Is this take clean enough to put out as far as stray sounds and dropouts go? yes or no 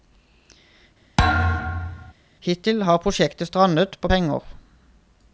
no